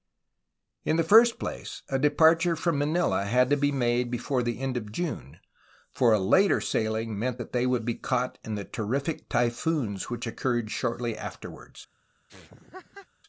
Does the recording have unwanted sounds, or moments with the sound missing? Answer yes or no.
yes